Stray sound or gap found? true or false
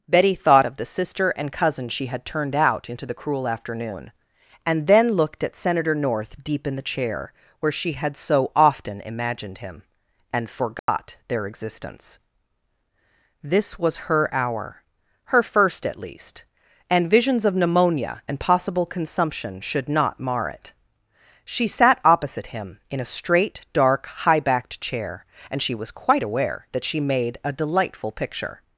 true